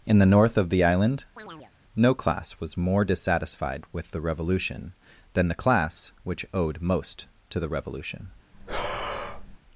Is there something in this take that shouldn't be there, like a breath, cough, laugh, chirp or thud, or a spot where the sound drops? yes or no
yes